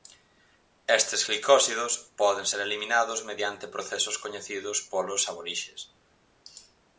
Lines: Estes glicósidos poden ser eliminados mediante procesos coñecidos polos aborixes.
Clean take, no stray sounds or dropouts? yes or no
yes